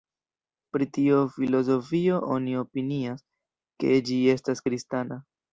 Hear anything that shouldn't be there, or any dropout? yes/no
no